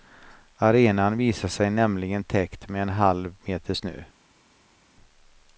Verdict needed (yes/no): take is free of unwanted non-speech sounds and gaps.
yes